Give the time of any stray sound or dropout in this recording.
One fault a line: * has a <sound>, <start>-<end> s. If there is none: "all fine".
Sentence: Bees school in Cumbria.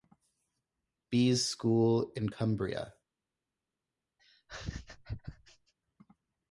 * has a laugh, 4.2-5.7 s